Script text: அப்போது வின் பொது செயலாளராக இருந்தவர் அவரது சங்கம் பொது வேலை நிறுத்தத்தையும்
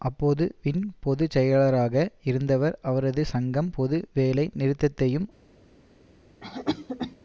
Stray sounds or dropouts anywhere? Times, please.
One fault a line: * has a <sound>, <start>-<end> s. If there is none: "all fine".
* has a cough, 6.4-7.2 s